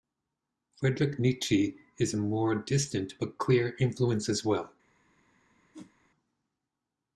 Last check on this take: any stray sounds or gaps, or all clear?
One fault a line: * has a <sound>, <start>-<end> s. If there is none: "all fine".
* has a whoosh, 5.7-5.9 s